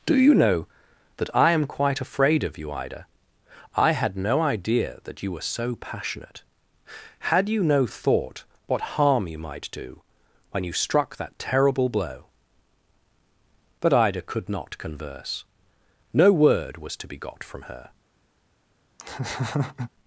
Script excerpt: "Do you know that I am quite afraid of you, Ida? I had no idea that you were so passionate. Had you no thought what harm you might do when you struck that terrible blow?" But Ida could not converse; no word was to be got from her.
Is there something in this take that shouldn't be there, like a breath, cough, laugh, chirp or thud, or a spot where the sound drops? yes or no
yes